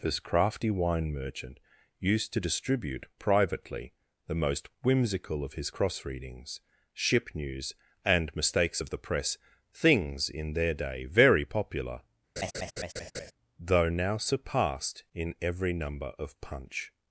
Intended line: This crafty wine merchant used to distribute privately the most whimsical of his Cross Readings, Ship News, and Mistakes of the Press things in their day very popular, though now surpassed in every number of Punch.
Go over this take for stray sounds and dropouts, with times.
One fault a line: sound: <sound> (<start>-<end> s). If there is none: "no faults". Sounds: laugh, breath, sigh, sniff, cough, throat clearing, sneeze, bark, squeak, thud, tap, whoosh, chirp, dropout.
sound: laugh (12.4-13.3 s)